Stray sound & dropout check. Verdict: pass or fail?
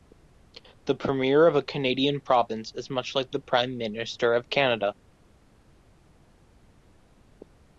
pass